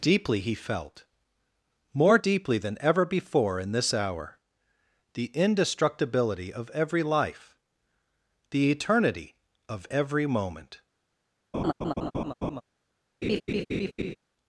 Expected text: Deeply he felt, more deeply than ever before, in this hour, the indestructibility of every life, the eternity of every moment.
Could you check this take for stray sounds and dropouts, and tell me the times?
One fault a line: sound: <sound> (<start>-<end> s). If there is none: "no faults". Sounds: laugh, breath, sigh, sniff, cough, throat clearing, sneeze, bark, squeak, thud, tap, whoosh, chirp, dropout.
sound: laugh (11.5-12.6 s)
sound: laugh (13.2-14.2 s)